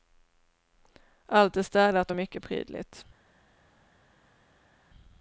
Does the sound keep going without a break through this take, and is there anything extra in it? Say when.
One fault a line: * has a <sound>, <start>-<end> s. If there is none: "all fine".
all fine